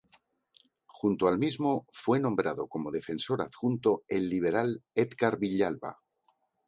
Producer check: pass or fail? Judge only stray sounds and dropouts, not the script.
pass